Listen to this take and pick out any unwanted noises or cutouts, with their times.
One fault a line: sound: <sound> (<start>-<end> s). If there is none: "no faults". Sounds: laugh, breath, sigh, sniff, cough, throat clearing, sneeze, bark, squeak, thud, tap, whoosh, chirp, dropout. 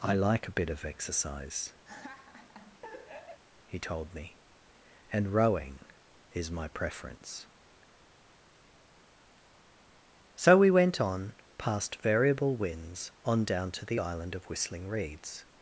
sound: laugh (1.8-3.4 s)